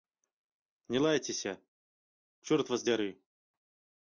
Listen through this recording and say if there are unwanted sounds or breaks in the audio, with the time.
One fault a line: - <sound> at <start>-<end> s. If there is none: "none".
none